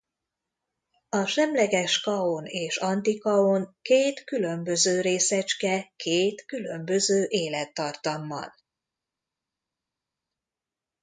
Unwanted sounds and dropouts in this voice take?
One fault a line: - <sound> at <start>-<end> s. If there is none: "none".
none